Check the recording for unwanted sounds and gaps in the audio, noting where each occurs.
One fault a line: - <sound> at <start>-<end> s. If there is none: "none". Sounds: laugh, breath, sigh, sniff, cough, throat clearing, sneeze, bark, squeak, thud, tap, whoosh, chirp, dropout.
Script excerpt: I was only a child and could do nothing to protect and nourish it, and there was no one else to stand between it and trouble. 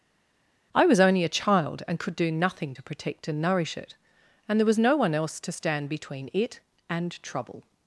none